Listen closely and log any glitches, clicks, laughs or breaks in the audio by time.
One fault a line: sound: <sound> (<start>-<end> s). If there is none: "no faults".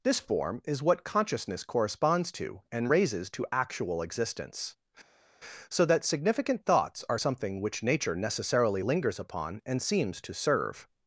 no faults